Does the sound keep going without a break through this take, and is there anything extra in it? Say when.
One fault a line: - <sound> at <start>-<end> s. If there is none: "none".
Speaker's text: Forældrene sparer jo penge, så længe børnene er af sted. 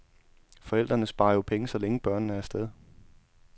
none